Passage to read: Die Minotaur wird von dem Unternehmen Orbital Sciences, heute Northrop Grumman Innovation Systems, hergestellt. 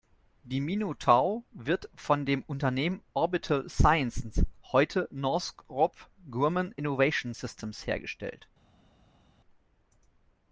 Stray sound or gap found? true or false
false